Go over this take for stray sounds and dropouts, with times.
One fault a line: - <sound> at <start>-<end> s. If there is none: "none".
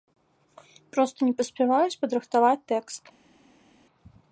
none